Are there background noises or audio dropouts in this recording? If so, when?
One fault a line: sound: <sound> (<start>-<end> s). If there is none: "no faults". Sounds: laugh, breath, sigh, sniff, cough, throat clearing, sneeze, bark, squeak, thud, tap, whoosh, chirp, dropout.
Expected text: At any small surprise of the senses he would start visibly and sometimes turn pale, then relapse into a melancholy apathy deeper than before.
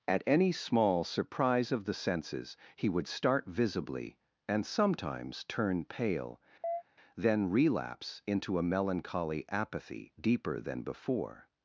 sound: chirp (6.6-6.8 s)